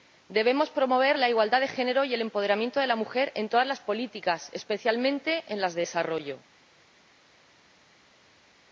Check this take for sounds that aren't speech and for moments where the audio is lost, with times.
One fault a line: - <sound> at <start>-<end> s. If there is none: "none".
none